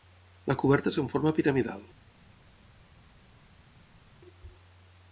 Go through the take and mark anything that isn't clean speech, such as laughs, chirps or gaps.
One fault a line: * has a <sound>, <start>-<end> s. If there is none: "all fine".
all fine